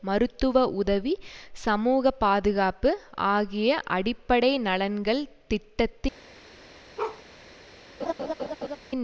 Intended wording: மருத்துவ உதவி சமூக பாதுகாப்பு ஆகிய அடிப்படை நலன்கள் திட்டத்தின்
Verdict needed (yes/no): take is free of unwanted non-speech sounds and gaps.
no